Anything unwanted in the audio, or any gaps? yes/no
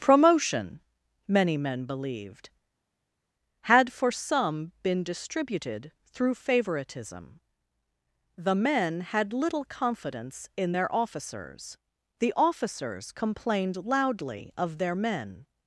no